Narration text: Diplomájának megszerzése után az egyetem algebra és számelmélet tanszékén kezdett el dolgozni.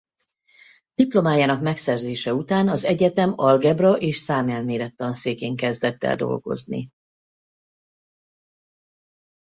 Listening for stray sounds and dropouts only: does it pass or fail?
pass